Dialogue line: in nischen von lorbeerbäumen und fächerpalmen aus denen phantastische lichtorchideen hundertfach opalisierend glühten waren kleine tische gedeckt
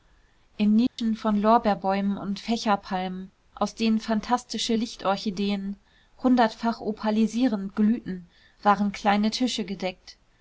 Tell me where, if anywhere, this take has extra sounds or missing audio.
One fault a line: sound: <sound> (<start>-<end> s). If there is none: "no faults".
sound: dropout (0.9-1.0 s)